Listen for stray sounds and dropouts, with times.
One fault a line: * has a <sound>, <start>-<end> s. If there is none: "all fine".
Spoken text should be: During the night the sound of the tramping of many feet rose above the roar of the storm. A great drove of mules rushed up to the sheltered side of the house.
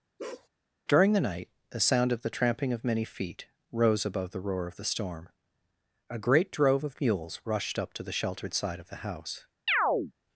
* has a bark, 0.2-0.5 s
* has a chirp, 9.7-10.1 s